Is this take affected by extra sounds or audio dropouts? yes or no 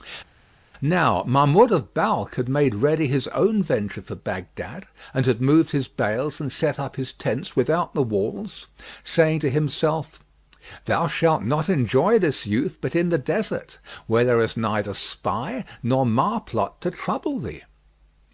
no